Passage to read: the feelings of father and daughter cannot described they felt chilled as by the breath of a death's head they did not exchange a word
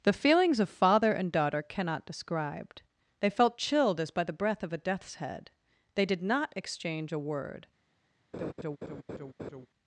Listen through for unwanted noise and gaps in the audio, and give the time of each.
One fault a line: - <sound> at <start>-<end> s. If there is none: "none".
- laugh at 8.3-9.7 s